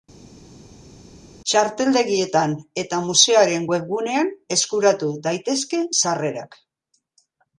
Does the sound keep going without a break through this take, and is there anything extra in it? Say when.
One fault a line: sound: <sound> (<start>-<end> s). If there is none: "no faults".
no faults